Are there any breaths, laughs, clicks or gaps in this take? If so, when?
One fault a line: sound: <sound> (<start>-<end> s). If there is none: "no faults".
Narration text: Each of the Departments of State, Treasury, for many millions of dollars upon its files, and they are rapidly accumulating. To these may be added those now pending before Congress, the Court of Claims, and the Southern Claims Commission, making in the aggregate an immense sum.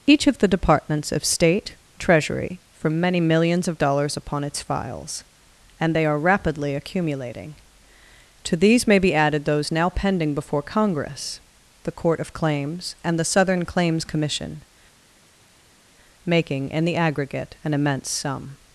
no faults